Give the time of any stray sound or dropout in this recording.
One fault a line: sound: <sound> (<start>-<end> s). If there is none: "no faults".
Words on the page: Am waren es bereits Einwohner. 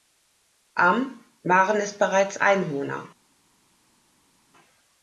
no faults